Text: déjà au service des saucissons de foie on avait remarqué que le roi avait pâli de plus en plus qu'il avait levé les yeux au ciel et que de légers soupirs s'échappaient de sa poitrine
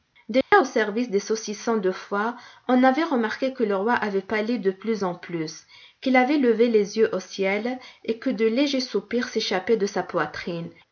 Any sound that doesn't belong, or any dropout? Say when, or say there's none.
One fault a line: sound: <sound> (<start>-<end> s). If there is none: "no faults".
sound: dropout (0.4-0.5 s)